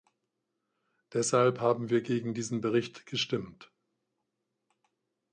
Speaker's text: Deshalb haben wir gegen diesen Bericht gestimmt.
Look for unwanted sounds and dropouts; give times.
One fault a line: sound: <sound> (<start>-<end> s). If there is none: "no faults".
no faults